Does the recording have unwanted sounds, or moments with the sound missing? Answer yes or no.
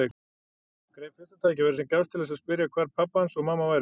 no